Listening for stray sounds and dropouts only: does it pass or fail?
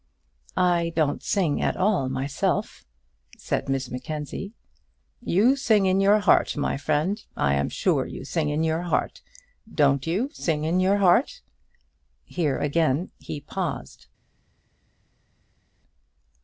pass